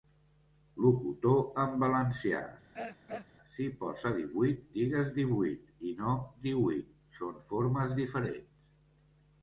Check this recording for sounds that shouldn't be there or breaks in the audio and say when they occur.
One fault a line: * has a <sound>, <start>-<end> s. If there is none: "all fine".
* has a throat clearing, 2.7-3.3 s